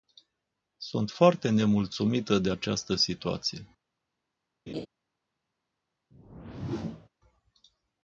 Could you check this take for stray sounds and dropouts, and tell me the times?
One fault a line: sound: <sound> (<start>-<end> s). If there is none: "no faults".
sound: laugh (4.7-4.9 s)
sound: whoosh (6.1-7.1 s)